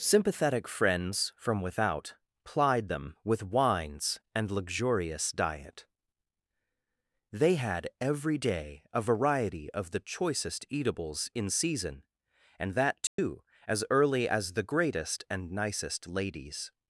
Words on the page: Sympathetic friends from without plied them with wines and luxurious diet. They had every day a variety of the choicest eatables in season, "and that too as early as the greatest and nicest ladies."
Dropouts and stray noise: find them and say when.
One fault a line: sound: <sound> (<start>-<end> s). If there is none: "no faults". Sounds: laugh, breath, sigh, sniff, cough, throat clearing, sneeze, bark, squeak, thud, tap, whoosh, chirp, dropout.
sound: dropout (13.1-13.2 s)